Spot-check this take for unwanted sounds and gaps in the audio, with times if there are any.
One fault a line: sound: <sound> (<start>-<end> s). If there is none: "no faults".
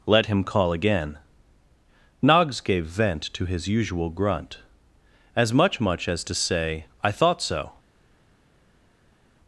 no faults